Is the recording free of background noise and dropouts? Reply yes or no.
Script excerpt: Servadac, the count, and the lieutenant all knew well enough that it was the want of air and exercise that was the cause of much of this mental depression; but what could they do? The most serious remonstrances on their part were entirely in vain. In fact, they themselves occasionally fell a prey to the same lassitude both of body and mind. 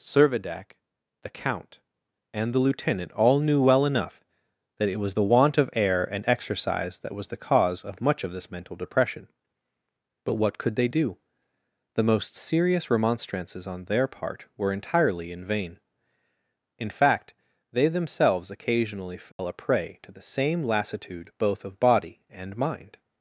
no